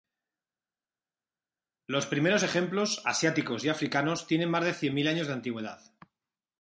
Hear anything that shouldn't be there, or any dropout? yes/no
no